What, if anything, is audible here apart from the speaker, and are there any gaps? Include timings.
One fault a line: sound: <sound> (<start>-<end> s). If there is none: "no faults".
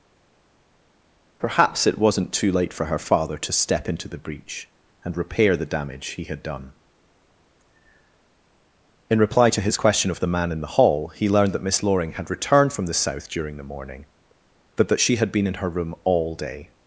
no faults